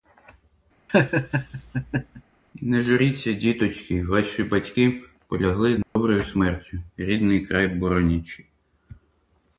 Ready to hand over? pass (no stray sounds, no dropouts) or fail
fail